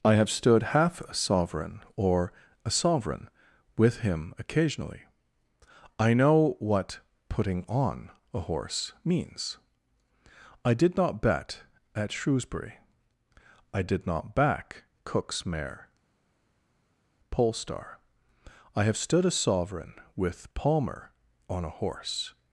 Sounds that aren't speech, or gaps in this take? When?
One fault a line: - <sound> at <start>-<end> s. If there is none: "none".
none